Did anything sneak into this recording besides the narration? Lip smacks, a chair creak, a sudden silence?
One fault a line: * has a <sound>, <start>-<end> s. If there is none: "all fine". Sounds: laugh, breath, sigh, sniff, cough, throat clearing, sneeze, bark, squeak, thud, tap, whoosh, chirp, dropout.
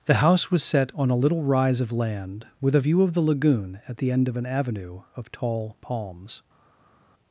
all fine